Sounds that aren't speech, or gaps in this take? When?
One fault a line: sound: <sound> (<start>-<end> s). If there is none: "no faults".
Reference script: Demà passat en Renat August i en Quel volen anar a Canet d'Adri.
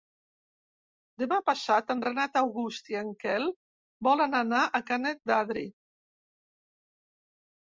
no faults